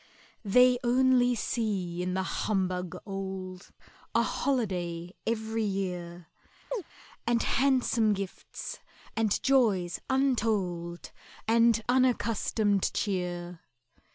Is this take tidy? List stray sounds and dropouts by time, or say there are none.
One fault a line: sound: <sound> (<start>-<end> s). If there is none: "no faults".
sound: chirp (6.7-6.8 s)